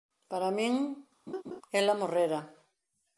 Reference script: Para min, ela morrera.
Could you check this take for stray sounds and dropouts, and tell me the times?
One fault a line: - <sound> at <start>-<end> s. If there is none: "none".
- laugh at 1.3-1.6 s